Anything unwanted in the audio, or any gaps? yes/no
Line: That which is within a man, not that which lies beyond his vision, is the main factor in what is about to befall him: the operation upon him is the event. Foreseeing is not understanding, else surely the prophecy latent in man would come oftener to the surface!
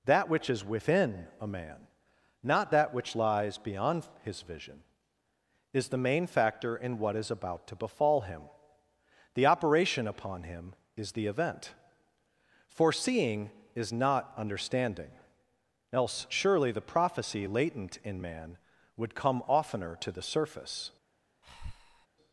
yes